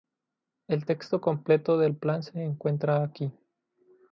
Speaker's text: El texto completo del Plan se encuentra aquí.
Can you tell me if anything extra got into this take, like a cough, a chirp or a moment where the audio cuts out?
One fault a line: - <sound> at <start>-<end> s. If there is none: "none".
none